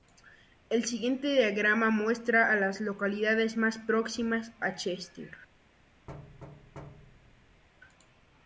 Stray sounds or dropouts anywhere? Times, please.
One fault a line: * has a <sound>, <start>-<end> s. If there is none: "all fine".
* has a thud, 6.1-7.6 s